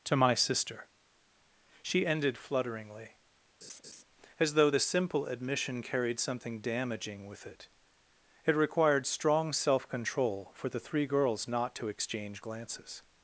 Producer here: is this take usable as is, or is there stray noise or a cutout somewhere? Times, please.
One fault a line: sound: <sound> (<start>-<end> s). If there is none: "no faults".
sound: laugh (3.6-4.0 s)